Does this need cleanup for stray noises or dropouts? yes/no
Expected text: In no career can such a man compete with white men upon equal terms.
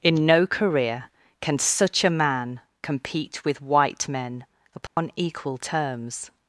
yes